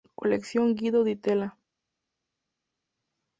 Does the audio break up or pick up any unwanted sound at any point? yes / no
no